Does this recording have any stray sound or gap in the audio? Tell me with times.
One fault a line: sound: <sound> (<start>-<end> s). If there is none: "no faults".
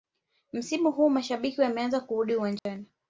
sound: dropout (2.6-2.7 s)